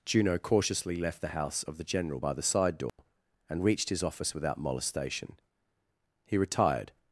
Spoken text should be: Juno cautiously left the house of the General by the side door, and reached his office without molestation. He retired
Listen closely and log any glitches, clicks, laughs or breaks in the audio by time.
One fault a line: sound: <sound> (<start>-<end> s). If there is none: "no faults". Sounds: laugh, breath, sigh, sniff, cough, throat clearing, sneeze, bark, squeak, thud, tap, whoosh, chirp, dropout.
sound: dropout (2.9-3.0 s)